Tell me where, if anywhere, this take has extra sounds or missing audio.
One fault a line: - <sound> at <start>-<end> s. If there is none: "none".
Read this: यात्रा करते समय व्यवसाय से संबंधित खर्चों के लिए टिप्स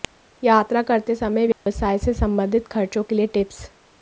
- dropout at 1.5-1.7 s